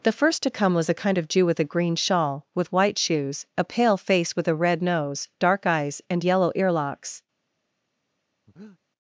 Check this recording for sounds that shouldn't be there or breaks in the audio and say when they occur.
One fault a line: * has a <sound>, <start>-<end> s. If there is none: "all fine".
* has a breath, 8.5-8.8 s